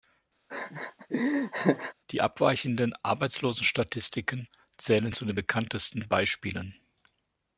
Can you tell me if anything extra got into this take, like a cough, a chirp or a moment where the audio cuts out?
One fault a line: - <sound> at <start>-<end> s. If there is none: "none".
- laugh at 0.5-1.9 s